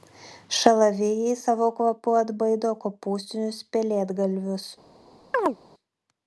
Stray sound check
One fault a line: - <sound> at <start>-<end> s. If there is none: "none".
- chirp at 5.3-5.6 s